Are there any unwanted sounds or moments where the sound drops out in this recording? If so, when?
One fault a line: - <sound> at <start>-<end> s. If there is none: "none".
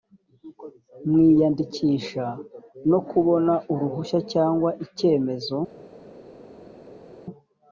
none